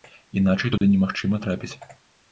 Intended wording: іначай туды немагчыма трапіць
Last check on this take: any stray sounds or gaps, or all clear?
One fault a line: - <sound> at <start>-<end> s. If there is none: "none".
- dropout at 0.8-0.8 s